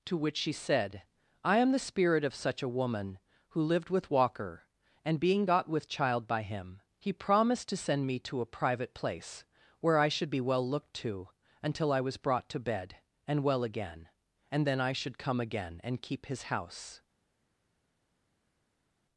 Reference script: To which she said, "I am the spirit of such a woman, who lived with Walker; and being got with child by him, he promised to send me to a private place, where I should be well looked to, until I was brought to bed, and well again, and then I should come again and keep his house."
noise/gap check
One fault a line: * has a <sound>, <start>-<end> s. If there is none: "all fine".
all fine